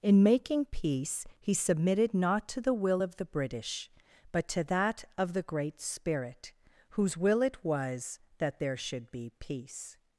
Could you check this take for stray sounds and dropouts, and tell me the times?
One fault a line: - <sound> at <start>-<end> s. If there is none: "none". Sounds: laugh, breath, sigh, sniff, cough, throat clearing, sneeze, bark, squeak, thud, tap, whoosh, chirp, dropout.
none